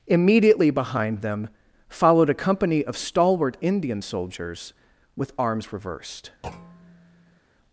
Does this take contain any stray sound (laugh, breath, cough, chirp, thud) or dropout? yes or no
yes